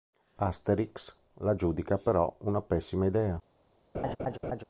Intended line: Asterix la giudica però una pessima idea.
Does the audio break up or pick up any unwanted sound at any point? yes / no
yes